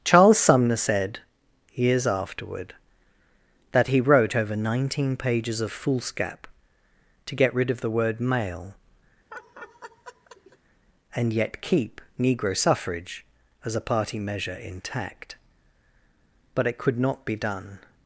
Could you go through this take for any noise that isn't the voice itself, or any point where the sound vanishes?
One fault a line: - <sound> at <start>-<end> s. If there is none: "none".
- laugh at 9.3-10.6 s